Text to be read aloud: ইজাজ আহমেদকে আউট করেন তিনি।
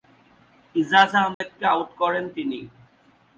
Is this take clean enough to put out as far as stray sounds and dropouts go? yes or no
no